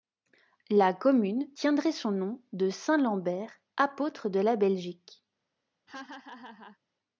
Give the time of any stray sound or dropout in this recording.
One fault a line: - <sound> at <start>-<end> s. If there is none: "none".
- laugh at 5.9-6.8 s